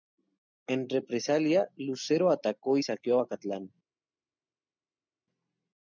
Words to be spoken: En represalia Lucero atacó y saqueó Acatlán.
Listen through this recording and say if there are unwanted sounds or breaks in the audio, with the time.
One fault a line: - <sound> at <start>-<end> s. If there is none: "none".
none